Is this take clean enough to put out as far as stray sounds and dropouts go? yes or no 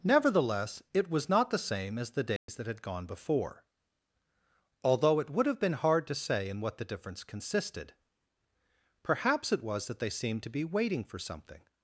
no